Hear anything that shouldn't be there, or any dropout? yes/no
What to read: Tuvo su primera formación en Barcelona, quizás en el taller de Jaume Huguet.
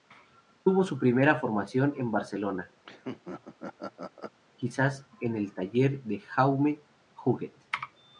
yes